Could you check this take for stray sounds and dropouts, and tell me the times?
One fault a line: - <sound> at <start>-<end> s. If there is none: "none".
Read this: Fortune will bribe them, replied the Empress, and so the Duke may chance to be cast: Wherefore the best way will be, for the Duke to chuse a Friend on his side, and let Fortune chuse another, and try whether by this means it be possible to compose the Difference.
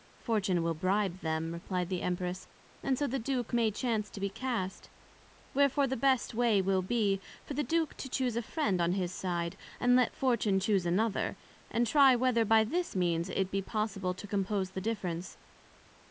none